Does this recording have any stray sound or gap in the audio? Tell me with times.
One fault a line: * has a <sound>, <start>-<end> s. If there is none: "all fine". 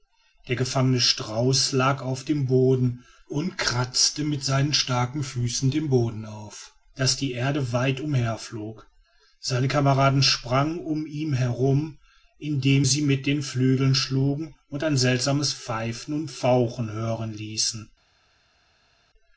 all fine